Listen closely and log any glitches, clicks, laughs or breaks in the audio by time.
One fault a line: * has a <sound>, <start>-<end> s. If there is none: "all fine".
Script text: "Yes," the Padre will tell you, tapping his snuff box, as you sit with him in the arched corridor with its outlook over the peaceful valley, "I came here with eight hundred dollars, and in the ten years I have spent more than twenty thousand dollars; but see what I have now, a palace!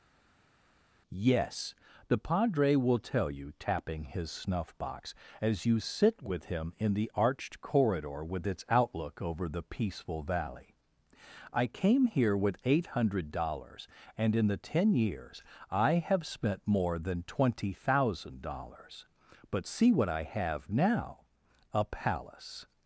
all fine